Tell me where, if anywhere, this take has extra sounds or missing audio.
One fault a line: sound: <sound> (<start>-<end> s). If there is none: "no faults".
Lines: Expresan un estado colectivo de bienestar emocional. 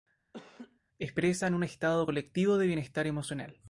sound: laugh (0.3-0.8 s)